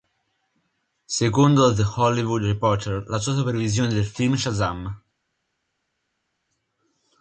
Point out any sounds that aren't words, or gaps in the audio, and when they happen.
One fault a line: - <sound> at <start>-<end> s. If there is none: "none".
none